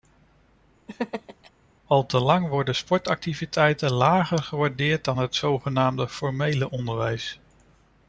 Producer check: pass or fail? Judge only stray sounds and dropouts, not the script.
fail